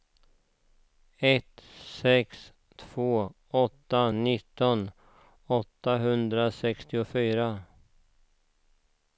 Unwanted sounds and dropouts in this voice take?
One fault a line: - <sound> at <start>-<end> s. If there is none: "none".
none